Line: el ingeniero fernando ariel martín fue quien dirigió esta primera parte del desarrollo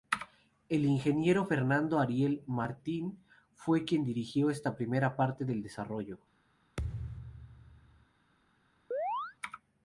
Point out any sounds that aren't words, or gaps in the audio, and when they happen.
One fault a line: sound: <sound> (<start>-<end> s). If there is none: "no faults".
sound: thud (6.8-8.1 s)
sound: chirp (8.9-9.4 s)